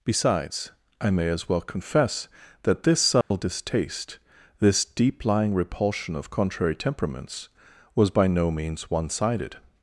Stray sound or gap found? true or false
true